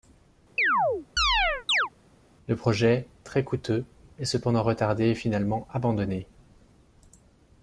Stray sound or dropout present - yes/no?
yes